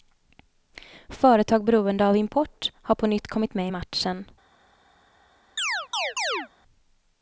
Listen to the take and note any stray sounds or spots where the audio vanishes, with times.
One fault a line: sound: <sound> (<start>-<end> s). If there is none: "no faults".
sound: chirp (5.6-6.5 s)